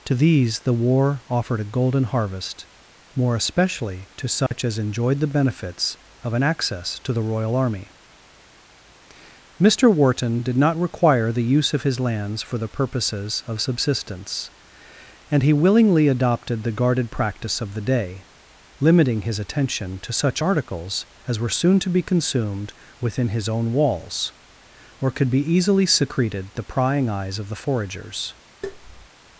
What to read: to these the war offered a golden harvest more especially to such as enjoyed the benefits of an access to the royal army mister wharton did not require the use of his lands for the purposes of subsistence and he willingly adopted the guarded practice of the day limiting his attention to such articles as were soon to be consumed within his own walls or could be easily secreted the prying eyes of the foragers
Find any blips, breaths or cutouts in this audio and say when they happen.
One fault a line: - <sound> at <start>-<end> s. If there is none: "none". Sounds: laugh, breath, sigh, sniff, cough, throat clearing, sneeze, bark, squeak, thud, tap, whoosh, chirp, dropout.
- dropout at 4.5-4.5 s
- tap at 28.6-29.1 s